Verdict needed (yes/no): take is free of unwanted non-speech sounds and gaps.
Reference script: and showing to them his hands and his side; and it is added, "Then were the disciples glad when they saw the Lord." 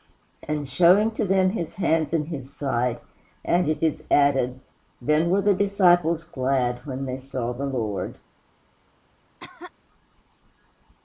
no